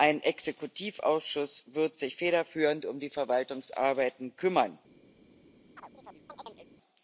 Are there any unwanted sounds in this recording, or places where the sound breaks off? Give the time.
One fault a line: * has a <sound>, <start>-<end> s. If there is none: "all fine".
* has a chirp, 5.8-6.7 s